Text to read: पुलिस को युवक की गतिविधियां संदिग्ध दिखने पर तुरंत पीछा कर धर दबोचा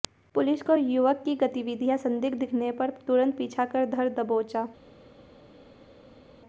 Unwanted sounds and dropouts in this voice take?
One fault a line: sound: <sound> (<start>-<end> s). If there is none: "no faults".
no faults